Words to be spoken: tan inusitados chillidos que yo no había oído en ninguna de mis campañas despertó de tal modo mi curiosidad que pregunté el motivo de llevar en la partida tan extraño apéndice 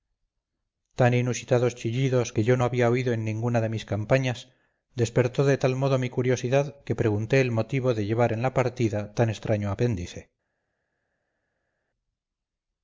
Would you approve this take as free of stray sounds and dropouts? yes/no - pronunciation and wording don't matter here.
yes